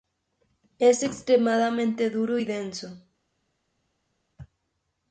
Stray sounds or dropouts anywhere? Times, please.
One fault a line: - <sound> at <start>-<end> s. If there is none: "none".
none